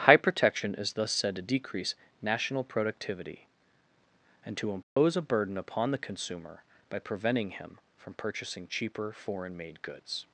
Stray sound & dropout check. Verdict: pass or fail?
fail